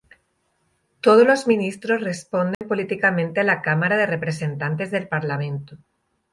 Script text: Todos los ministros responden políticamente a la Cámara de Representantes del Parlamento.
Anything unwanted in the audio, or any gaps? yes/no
yes